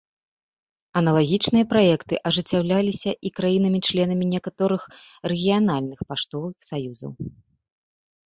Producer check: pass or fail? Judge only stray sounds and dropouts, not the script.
pass